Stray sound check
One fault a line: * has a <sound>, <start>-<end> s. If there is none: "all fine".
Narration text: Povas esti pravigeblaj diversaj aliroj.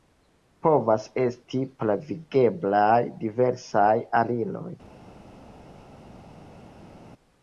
all fine